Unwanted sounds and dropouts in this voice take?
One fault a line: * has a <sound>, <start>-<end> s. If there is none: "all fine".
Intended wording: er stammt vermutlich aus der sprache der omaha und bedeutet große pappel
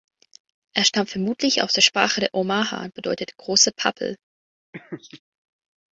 * has a laugh, 4.7-5.2 s